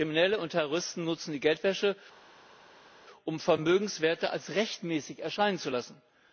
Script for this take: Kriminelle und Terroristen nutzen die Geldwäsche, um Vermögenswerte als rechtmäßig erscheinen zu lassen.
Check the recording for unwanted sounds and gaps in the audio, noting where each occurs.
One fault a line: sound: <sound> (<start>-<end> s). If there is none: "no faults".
no faults